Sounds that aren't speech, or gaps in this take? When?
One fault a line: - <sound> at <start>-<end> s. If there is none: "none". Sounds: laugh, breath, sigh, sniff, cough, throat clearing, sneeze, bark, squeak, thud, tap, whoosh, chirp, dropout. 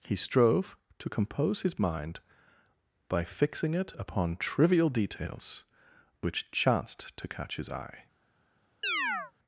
- chirp at 8.8-9.3 s